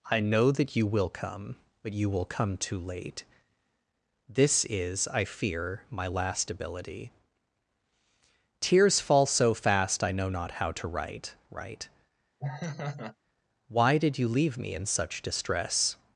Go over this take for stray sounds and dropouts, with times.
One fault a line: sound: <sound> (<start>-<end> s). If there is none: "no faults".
sound: laugh (12.4-13.2 s)